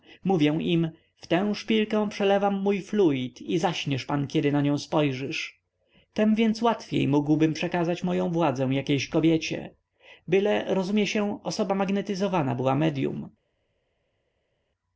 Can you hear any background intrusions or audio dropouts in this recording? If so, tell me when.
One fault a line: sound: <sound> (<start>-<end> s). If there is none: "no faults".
no faults